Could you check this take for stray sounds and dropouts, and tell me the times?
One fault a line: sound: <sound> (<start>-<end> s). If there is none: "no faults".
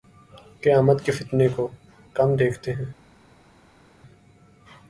no faults